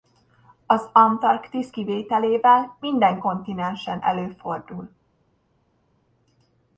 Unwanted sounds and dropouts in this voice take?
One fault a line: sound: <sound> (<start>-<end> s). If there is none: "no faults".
no faults